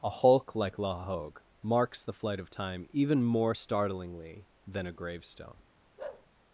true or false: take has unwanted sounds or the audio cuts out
true